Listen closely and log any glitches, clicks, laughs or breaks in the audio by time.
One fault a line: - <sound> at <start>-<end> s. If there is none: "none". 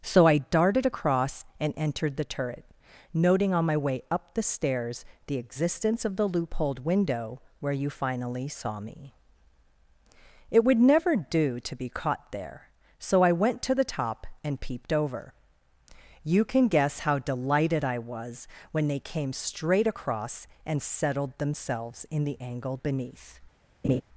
- laugh at 23.8-24.0 s